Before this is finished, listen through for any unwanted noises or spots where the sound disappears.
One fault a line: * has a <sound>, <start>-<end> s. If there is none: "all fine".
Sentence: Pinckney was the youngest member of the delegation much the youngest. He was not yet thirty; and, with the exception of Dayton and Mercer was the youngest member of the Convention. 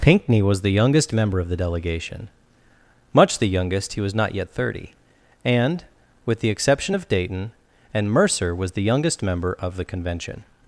all fine